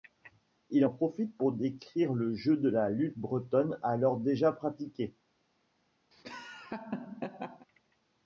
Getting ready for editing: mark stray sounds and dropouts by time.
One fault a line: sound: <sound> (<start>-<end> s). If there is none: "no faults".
sound: laugh (6.1-7.7 s)